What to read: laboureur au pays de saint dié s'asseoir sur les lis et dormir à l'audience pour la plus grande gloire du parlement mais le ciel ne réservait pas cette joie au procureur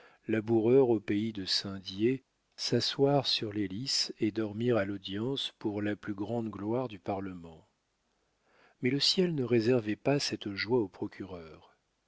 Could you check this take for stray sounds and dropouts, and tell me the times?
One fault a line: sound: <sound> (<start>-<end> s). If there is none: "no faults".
no faults